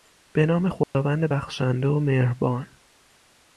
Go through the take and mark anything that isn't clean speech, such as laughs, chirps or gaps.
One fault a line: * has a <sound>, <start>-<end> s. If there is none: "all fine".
* has a dropout, 0.8-0.9 s